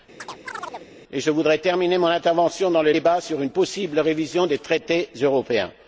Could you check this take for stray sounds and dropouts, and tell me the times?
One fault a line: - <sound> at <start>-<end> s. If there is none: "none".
- chirp at 0.2-0.9 s